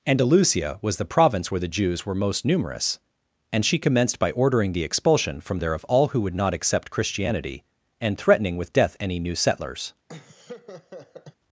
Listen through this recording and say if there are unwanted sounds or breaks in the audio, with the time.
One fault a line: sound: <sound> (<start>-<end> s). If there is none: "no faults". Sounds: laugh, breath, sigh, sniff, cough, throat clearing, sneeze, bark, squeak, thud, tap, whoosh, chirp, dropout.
sound: laugh (10.1-11.4 s)